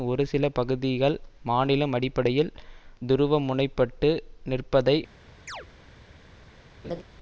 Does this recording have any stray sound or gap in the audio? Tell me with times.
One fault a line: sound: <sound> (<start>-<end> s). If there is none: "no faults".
sound: chirp (5.5-5.7 s)
sound: laugh (6.8-7.0 s)